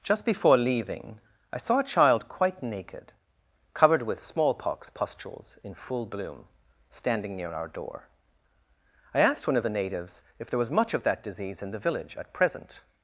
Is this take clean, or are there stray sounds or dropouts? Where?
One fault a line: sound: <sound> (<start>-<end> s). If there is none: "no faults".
no faults